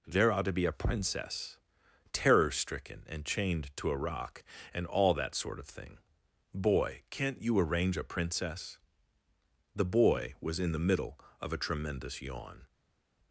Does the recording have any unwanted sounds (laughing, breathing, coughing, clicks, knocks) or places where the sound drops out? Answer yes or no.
no